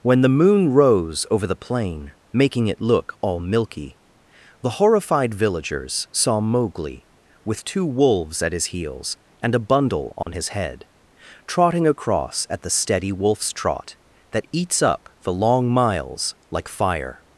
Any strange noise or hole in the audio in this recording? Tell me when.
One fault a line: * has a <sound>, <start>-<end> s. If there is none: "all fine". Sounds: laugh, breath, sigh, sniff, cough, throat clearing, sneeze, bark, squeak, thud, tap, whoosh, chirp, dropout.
* has a dropout, 10.2-10.3 s